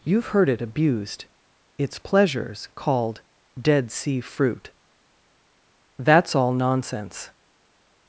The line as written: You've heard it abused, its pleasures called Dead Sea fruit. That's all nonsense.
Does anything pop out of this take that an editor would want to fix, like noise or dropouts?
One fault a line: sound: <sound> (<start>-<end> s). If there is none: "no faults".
no faults